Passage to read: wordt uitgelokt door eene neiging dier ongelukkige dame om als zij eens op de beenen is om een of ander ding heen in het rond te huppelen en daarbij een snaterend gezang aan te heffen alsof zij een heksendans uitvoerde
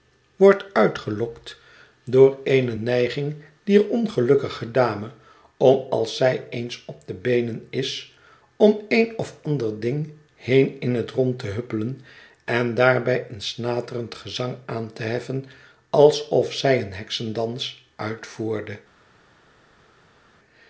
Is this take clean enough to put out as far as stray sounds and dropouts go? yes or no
yes